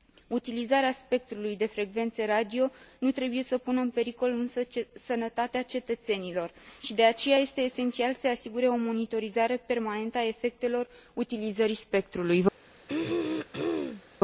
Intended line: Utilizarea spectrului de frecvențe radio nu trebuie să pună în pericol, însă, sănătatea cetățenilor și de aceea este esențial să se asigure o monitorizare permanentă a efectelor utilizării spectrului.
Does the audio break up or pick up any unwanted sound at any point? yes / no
yes